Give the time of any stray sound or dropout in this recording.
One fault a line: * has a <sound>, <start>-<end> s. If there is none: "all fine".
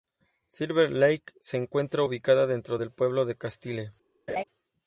* has a laugh, 4.3-4.4 s